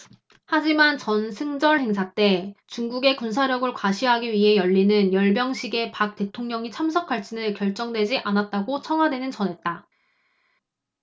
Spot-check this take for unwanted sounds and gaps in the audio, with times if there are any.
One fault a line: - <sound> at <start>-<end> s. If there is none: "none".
none